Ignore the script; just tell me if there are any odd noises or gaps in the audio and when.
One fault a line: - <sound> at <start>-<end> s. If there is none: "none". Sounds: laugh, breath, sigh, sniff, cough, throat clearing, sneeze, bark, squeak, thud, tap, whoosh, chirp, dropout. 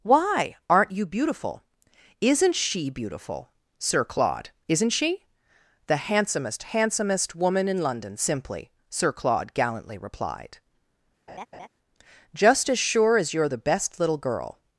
- laugh at 11.3-11.7 s